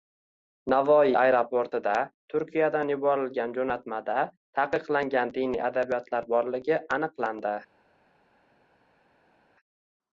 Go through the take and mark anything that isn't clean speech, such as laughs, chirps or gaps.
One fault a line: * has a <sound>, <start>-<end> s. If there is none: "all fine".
all fine